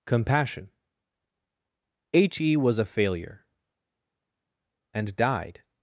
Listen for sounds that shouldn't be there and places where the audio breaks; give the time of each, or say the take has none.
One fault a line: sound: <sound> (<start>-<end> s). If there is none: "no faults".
no faults